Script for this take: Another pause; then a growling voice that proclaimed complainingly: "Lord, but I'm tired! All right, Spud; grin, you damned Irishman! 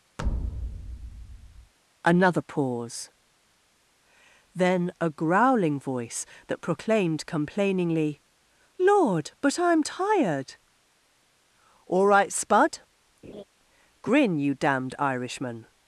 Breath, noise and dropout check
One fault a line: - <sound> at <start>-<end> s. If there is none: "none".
- thud at 0.2-1.7 s
- laugh at 13.2-13.4 s